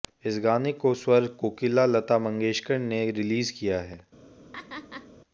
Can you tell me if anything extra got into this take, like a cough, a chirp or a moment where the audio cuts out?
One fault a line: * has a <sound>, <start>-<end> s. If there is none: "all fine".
* has a laugh, 4.5-5.1 s